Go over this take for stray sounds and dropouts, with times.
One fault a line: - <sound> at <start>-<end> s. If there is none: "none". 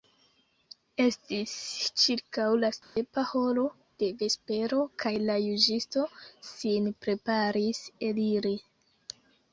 - dropout at 2.8-3.0 s